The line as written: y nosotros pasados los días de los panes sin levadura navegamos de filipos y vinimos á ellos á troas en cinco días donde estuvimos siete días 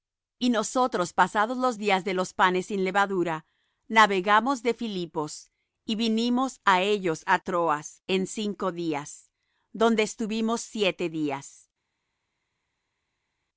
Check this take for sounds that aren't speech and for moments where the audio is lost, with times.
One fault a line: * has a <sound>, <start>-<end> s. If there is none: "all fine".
all fine